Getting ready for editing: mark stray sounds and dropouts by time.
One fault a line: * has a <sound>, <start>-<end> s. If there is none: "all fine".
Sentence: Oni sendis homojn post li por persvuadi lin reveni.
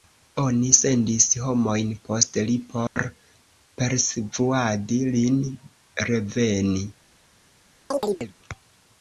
* has a dropout, 2.9-3.0 s
* has a chirp, 7.9-8.3 s